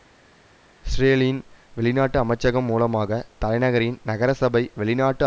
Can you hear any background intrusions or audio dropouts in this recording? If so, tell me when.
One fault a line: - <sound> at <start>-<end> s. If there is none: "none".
none